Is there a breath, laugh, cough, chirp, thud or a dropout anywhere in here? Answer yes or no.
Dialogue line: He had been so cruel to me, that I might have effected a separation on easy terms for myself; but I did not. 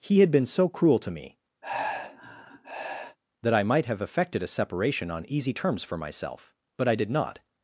yes